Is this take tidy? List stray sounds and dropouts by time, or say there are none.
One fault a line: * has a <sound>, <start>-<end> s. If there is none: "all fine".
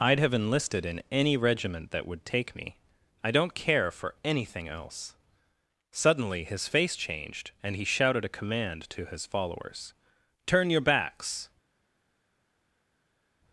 all fine